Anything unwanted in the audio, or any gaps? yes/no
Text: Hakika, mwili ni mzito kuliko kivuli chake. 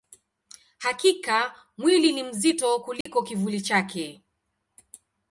yes